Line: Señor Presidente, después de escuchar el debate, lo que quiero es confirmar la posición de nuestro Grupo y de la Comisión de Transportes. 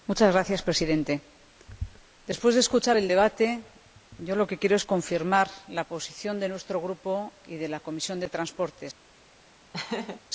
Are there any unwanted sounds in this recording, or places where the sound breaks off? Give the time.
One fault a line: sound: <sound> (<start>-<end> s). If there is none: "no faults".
sound: laugh (9.7-10.2 s)